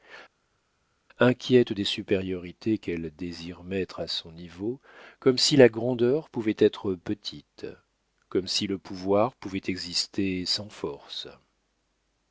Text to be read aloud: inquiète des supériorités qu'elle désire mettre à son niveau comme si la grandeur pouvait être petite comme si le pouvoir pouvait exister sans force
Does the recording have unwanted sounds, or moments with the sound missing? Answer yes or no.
no